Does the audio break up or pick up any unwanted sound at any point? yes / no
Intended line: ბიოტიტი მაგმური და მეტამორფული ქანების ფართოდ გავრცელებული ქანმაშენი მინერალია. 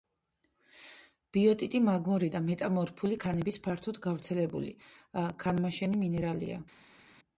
no